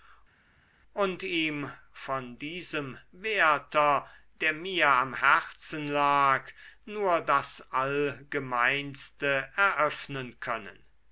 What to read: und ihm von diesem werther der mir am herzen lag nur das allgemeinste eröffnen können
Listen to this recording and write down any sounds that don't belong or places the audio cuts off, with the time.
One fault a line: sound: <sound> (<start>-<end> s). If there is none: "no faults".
no faults